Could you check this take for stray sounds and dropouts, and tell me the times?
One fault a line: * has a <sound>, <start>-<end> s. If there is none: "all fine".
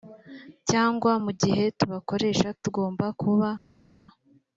all fine